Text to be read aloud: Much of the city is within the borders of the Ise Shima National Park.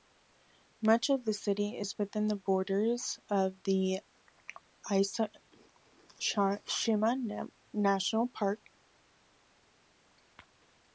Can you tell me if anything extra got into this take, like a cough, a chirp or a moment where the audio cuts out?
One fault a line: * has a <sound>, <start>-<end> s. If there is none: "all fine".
all fine